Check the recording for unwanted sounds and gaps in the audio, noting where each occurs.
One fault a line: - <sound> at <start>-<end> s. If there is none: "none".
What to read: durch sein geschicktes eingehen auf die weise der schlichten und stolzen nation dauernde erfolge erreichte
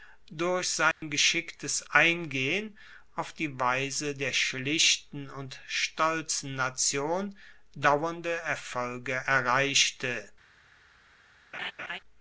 - dropout at 0.9-1.0 s
- laugh at 11.5-12.0 s